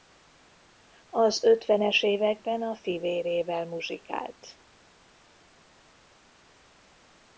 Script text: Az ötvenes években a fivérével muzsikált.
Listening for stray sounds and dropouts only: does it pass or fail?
pass